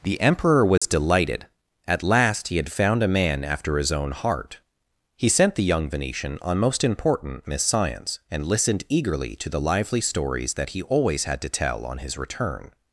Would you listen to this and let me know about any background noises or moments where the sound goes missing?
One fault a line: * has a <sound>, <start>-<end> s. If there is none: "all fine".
* has a dropout, 0.8-0.8 s